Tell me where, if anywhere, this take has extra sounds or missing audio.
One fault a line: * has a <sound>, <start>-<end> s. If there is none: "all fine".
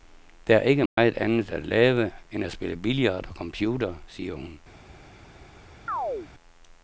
* has a dropout, 0.9-1.0 s
* has a chirp, 5.9-6.3 s